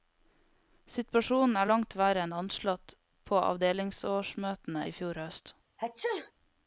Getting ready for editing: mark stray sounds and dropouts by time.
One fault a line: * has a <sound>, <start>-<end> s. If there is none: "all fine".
* has a sneeze, 5.8-6.3 s